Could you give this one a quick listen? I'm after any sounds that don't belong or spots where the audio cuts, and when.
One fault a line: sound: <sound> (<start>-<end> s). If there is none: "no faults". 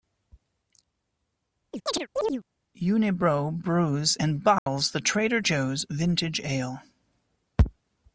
sound: chirp (1.7-2.4 s)
sound: dropout (4.6-4.7 s)